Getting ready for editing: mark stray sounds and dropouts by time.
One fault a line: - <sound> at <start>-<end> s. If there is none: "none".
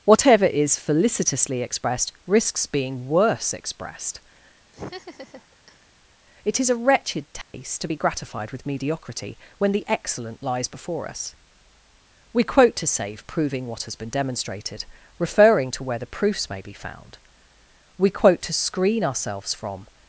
- laugh at 4.7-5.9 s
- dropout at 7.4-7.5 s